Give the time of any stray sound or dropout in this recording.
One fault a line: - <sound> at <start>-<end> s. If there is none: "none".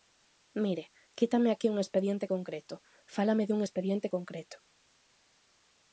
none